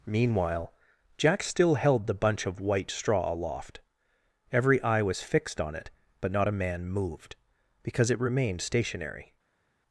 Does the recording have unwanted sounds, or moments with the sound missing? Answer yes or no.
no